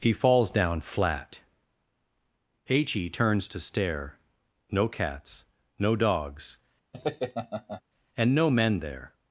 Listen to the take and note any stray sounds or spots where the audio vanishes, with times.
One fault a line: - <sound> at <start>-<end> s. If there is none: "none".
- laugh at 6.9-7.8 s